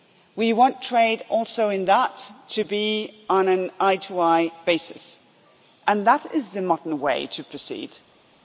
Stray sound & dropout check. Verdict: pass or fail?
pass